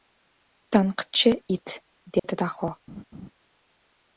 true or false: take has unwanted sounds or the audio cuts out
true